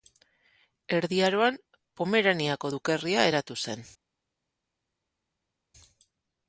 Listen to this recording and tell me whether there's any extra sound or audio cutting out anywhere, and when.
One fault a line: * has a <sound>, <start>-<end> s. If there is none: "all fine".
all fine